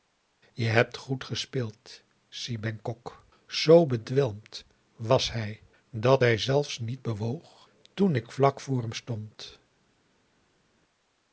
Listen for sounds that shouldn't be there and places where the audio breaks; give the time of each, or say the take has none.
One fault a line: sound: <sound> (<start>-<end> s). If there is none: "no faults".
no faults